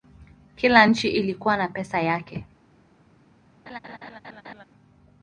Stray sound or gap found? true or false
true